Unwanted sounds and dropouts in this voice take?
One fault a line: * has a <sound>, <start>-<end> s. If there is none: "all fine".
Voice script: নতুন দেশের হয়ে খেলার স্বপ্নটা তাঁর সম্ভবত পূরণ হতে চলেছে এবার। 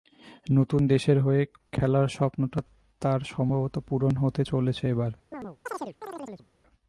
* has a chirp, 5.3-6.5 s